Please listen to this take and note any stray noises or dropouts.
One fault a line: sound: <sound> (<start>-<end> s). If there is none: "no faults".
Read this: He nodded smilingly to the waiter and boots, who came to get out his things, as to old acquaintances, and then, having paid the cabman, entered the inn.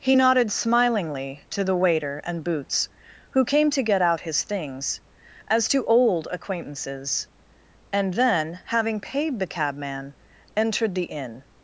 no faults